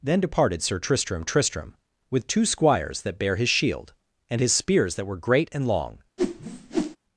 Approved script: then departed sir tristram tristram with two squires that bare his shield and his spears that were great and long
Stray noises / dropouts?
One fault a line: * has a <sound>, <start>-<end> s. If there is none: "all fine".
* has a whoosh, 6.2-7.0 s